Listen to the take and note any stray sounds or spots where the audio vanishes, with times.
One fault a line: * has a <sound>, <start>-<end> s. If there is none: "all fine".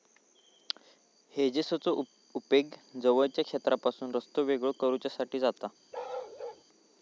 * has a bark, 5.9-6.6 s